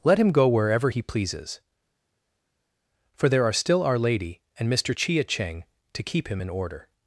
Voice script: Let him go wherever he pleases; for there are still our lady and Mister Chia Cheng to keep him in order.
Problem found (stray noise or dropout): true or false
false